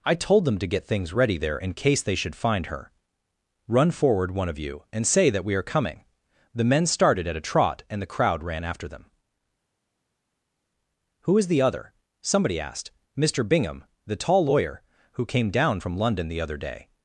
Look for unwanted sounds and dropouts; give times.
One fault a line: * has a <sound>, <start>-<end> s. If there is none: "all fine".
all fine